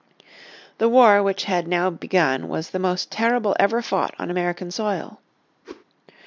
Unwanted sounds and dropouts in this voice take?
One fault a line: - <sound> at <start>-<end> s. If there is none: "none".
- whoosh at 5.6-5.8 s